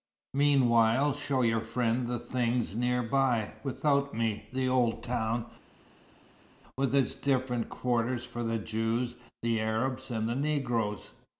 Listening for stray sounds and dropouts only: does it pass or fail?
pass